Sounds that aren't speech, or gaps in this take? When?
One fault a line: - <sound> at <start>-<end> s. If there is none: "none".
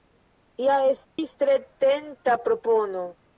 - dropout at 1.0-1.2 s